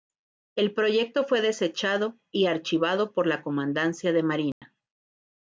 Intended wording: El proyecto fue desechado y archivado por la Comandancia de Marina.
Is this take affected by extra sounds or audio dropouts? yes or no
yes